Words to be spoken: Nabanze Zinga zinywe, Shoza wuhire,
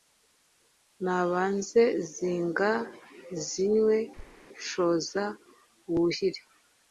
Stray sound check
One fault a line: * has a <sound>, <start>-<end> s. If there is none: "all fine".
* has a thud, 4.2-4.5 s